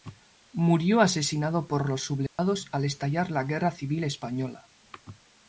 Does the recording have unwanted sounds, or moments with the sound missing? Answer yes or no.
yes